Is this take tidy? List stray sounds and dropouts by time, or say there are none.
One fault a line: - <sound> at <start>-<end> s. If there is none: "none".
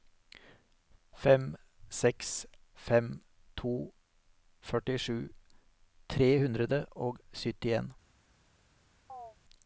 - chirp at 9.1-9.4 s